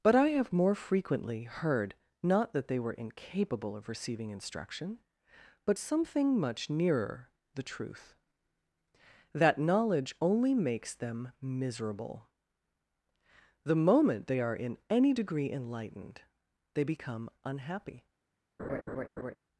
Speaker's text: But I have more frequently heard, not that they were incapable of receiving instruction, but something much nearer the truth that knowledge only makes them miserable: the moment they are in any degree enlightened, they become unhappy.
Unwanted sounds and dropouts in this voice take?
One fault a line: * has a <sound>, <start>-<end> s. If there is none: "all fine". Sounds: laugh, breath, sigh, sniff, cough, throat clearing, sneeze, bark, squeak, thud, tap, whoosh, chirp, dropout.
* has a laugh, 18.6-19.4 s